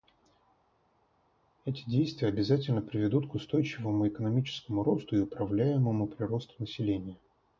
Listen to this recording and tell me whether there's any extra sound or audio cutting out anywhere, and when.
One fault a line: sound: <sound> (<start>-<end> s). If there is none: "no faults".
no faults